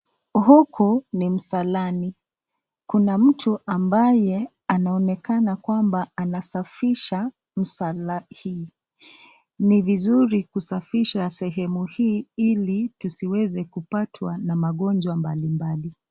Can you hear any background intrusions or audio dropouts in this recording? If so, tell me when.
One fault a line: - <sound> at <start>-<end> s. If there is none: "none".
none